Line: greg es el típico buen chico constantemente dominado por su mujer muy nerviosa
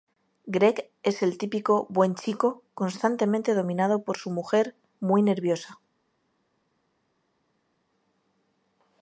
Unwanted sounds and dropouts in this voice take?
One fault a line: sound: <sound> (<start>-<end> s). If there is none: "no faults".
no faults